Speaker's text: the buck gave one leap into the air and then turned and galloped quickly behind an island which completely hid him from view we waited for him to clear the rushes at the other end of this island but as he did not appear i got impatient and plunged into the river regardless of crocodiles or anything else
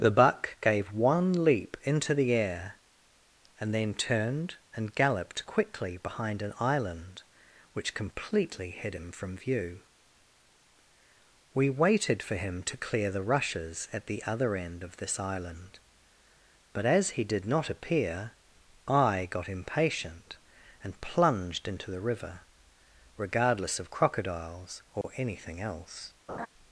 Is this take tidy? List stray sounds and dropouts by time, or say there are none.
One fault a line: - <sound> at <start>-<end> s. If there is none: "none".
- dropout at 25.0-25.0 s
- laugh at 26.3-26.5 s